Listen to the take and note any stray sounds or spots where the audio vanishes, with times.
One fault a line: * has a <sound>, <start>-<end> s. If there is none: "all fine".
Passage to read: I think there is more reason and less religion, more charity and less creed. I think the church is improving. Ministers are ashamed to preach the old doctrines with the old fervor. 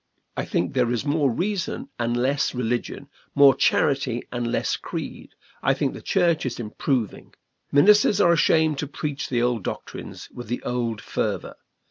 all fine